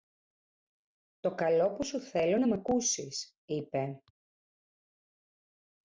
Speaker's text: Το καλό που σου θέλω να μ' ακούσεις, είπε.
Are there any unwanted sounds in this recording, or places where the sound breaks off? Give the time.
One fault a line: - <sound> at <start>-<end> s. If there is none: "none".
none